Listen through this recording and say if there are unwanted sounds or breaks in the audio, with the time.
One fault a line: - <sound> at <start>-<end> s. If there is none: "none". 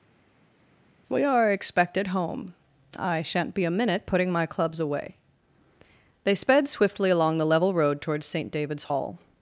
none